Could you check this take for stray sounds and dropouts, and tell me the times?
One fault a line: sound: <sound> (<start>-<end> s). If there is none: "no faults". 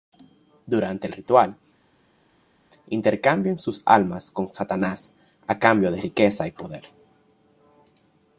no faults